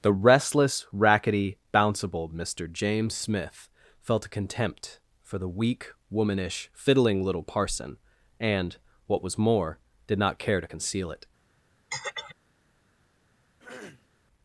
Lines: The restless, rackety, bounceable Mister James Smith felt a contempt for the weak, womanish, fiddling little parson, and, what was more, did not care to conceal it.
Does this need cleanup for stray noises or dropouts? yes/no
yes